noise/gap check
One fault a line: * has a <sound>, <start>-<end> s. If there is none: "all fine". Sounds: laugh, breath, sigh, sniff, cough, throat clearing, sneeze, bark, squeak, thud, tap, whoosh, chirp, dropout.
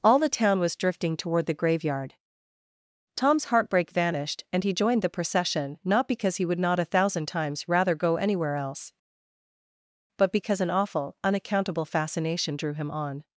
all fine